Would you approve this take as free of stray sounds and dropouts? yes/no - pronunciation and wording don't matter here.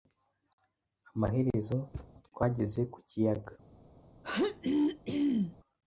no